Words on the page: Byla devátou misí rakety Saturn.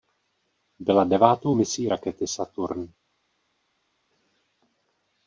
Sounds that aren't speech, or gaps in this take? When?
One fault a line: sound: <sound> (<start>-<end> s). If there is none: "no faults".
no faults